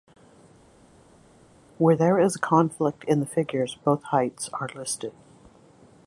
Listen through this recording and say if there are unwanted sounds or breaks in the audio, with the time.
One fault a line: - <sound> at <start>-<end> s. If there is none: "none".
none